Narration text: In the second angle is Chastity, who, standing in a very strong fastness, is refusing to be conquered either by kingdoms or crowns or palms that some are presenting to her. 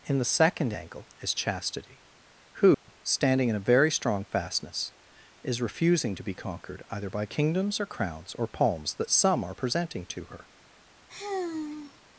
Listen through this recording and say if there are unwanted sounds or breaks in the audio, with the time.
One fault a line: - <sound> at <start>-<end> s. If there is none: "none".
- dropout at 2.7-2.9 s
- sigh at 11.1-12.0 s